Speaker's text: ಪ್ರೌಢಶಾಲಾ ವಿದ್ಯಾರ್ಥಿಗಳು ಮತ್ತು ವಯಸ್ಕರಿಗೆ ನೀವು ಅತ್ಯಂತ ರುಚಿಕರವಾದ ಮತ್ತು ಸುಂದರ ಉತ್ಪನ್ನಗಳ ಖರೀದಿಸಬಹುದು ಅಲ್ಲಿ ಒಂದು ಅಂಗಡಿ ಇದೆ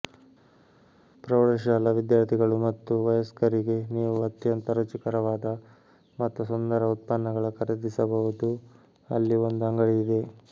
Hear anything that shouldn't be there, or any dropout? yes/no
no